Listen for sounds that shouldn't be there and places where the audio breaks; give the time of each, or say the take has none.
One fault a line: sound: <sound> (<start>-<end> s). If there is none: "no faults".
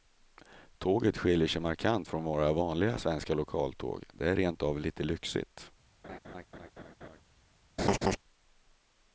sound: laugh (6.0-7.2 s)
sound: laugh (7.8-8.2 s)